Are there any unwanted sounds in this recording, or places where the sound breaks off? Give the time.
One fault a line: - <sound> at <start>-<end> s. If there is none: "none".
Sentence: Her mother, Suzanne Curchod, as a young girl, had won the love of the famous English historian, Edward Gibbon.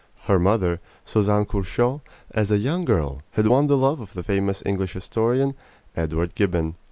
none